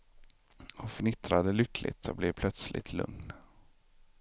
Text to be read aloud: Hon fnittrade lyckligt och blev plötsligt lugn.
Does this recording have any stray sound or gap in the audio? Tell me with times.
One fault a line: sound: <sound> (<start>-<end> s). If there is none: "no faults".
no faults